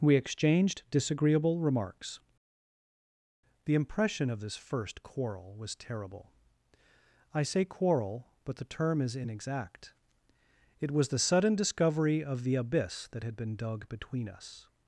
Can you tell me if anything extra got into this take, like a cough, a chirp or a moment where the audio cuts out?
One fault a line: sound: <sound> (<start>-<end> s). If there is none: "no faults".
no faults